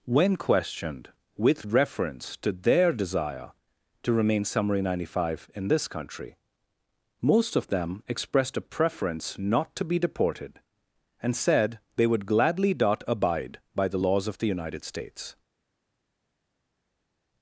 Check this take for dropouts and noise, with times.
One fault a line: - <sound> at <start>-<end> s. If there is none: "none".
none